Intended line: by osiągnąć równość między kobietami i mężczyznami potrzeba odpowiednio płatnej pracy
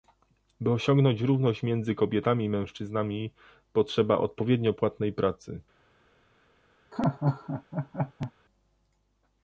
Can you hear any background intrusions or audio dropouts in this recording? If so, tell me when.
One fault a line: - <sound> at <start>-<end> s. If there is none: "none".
- laugh at 6.9-8.3 s